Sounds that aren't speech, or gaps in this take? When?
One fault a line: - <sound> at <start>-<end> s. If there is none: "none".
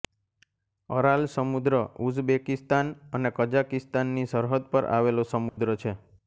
- dropout at 5.5-5.6 s